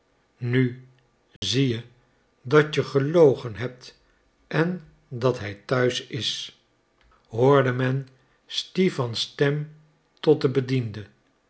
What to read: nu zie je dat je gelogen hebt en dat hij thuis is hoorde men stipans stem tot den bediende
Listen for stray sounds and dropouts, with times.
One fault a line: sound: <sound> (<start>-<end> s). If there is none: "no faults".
sound: dropout (1.4-1.4 s)